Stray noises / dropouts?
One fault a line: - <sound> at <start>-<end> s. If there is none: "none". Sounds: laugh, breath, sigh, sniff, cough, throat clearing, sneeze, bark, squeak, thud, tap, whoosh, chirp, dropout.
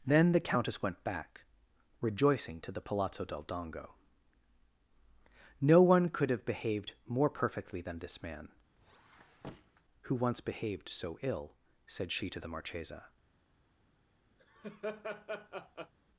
- squeak at 8.8-9.8 s
- laugh at 14.4-15.9 s